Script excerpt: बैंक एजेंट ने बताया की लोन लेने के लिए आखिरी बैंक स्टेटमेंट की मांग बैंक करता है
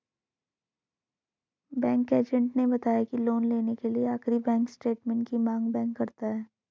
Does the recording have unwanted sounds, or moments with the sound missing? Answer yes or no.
no